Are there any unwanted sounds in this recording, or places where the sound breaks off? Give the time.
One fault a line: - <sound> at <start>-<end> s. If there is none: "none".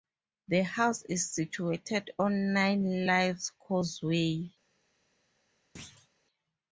- thud at 5.8-6.1 s